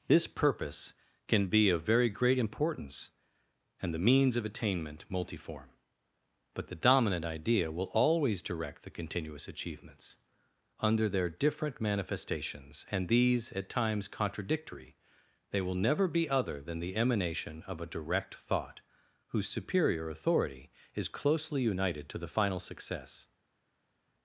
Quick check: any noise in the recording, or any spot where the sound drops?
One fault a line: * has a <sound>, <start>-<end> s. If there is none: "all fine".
all fine